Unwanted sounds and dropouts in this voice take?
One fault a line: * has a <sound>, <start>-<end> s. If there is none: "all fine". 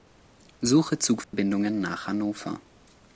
* has a dropout, 1.2-1.3 s